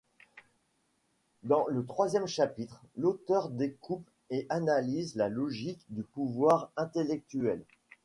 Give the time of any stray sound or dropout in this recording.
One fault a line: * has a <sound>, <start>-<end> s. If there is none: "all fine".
all fine